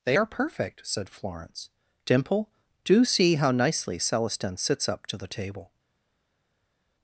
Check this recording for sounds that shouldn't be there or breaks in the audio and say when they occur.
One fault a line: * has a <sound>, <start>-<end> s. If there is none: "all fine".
all fine